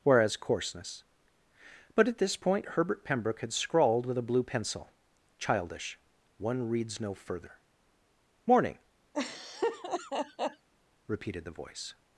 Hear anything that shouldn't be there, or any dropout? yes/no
yes